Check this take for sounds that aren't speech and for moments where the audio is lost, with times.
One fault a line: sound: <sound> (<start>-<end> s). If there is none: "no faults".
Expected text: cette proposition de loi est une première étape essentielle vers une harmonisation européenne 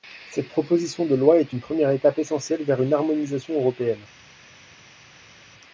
no faults